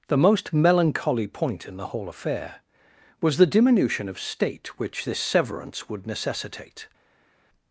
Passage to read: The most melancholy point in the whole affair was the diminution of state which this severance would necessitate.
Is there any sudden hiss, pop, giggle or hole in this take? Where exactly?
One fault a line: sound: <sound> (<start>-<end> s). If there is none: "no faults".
no faults